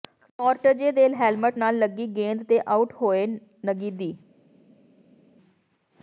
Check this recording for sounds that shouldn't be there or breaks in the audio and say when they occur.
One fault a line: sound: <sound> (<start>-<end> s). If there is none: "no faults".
no faults